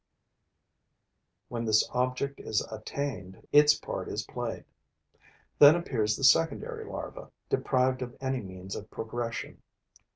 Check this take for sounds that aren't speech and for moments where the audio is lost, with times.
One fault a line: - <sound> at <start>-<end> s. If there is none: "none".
none